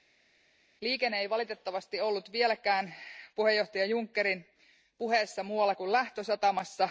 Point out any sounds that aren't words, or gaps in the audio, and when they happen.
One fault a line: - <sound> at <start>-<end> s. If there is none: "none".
none